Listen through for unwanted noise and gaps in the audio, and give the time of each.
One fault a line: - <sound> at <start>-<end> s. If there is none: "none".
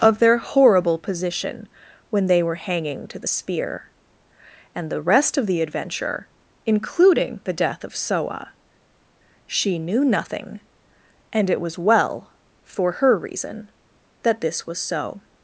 none